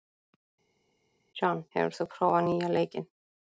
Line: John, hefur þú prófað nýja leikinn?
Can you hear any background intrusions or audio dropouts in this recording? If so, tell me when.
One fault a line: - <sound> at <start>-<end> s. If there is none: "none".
none